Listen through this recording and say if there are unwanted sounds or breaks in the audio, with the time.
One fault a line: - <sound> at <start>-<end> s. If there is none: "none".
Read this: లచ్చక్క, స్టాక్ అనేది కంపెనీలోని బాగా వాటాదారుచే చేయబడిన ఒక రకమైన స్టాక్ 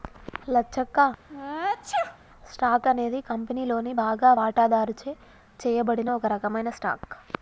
- sneeze at 1.3-2.2 s